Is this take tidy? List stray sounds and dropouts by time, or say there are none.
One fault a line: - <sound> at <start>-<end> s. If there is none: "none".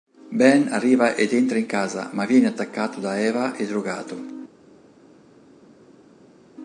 none